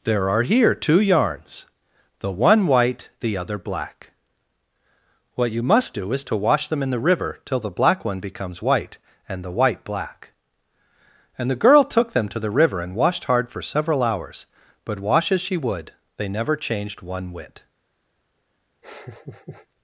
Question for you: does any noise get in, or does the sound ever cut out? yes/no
yes